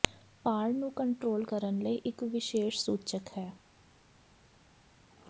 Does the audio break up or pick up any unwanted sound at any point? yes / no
no